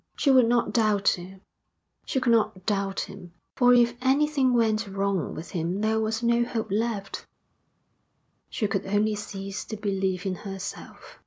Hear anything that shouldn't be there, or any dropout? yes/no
no